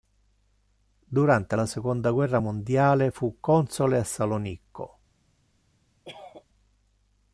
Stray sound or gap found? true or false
true